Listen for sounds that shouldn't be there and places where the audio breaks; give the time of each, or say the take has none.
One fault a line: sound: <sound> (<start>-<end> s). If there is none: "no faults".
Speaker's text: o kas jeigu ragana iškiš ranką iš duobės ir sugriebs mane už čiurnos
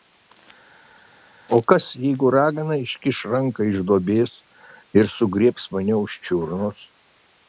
no faults